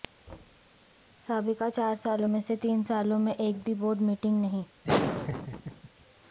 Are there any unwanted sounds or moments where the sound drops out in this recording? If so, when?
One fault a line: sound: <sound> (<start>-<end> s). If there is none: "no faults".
sound: thud (0.3-0.6 s)
sound: laugh (4.8-5.9 s)